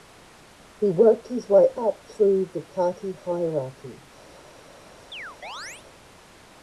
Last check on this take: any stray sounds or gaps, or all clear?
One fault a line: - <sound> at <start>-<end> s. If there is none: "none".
- chirp at 5.1-5.9 s